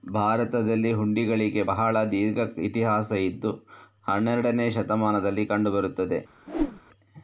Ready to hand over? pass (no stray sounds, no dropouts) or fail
fail